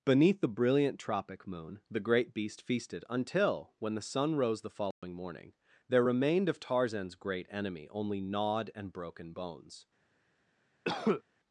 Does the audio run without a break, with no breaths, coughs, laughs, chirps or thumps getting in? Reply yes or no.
no